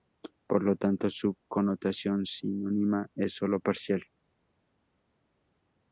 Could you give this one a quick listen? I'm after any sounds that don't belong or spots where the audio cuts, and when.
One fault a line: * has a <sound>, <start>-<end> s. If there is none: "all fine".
all fine